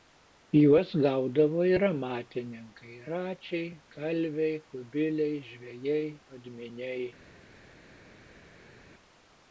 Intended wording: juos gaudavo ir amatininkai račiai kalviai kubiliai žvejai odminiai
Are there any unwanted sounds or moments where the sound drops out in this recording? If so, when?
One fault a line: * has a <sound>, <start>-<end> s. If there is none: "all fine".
all fine